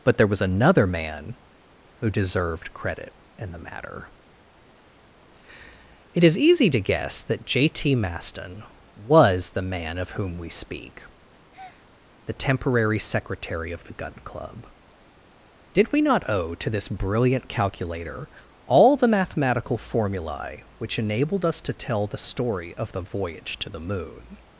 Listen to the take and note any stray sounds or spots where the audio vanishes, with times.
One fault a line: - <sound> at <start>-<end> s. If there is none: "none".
- breath at 11.5-11.9 s